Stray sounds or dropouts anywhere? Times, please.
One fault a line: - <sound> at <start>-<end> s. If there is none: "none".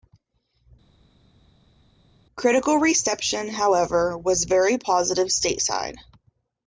none